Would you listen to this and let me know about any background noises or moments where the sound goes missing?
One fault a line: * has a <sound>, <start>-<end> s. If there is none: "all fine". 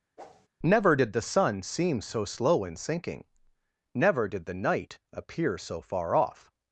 * has a whoosh, 0.2-0.5 s